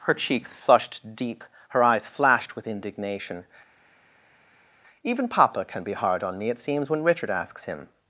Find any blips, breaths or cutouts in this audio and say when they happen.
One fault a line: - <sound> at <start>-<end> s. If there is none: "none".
none